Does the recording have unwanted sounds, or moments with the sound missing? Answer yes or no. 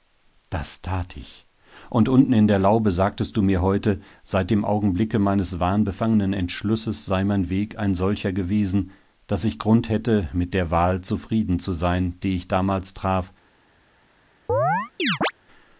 yes